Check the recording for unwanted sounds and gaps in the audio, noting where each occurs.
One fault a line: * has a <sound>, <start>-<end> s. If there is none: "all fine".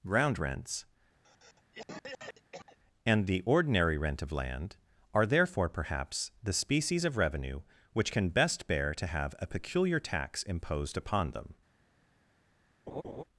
* has a cough, 1.2-2.8 s
* has a laugh, 12.9-13.2 s